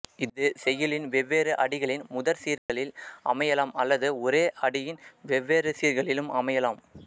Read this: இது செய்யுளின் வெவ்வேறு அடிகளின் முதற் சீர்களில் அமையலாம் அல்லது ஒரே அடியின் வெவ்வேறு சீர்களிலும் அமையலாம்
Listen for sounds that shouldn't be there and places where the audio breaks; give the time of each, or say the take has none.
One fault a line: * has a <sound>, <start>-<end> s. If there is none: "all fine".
* has a dropout, 2.6-2.7 s